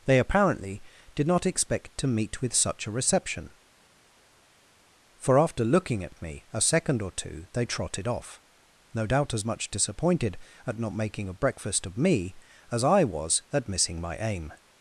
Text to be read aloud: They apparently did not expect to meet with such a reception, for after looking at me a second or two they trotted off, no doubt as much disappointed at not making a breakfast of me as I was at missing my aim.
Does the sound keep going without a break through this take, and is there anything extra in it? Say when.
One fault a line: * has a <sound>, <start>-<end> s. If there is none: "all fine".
all fine